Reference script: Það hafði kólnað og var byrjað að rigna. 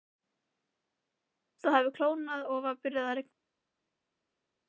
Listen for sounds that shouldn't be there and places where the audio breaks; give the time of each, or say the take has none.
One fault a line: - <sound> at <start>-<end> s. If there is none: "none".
none